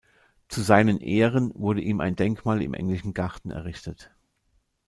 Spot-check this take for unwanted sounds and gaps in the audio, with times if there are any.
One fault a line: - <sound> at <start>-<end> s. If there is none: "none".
none